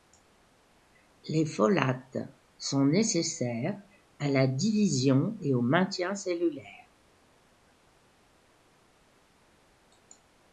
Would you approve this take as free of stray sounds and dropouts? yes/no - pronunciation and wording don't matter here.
yes